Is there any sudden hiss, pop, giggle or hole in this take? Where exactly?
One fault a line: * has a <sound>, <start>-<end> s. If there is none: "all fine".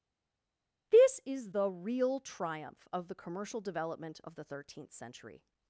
all fine